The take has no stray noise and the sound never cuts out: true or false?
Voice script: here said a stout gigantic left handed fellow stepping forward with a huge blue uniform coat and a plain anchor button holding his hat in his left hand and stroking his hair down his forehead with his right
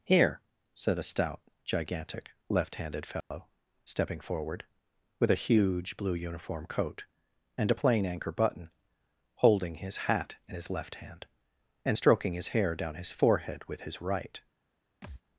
false